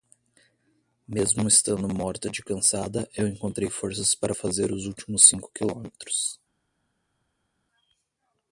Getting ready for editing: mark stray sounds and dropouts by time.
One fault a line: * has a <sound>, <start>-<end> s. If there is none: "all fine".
all fine